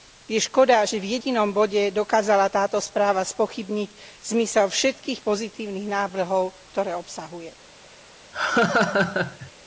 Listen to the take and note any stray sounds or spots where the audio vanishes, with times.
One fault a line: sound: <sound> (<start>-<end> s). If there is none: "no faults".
sound: laugh (8.3-9.5 s)